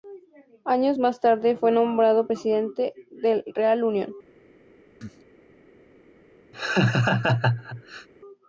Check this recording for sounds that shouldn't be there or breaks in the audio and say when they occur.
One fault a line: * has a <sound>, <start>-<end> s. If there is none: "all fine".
* has a cough, 5.0-5.2 s
* has a laugh, 6.5-8.1 s